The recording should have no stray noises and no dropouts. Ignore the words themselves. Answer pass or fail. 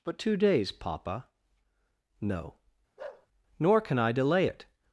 fail